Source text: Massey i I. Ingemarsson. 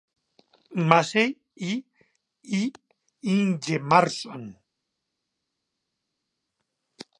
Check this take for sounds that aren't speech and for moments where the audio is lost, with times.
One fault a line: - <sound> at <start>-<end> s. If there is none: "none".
none